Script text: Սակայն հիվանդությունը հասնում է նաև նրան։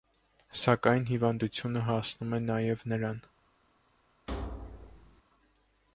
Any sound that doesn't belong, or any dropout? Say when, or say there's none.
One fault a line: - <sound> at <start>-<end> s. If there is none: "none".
- thud at 4.3-5.2 s